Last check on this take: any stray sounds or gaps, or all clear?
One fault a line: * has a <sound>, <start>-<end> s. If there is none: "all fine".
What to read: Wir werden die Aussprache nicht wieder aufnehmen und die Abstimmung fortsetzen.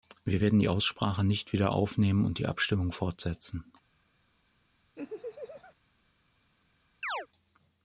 * has a laugh, 5.0-5.8 s
* has a chirp, 7.0-7.3 s